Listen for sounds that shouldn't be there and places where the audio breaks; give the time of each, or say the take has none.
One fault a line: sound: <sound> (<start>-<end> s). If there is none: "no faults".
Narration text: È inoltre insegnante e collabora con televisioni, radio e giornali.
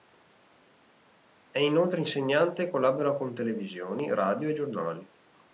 no faults